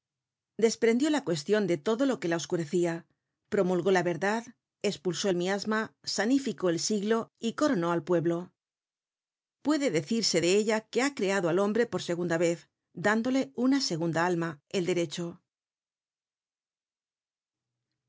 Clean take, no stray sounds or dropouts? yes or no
yes